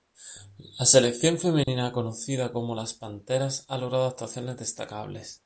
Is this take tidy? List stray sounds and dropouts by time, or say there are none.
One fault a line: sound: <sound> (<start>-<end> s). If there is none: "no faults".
sound: dropout (1.6-1.7 s)